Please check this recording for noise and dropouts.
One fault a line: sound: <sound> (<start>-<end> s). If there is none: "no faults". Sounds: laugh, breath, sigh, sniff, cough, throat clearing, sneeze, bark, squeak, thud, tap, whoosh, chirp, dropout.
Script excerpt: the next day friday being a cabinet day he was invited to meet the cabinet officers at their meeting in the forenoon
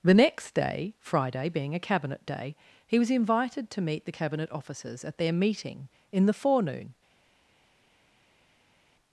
no faults